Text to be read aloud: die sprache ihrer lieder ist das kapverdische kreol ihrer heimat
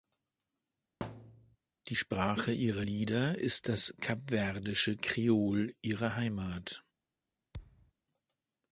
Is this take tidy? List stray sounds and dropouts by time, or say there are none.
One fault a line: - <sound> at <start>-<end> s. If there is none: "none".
- thud at 1.0-1.6 s
- thud at 7.5-7.9 s